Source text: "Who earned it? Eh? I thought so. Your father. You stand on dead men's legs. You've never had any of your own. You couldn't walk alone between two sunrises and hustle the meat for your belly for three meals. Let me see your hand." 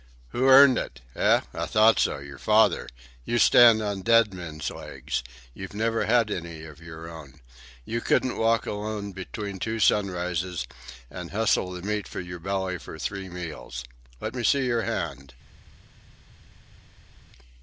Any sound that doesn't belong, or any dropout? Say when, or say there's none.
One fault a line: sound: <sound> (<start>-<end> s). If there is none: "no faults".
no faults